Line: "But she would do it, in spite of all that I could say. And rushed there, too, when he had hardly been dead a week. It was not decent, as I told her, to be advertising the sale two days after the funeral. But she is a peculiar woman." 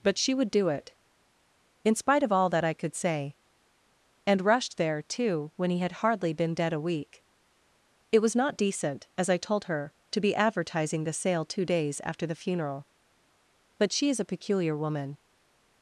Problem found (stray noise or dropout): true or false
false